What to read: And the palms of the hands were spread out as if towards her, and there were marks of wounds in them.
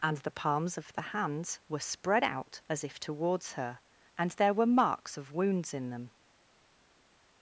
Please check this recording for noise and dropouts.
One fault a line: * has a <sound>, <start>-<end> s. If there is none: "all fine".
all fine